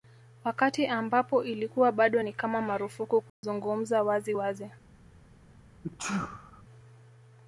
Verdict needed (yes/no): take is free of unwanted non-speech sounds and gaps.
no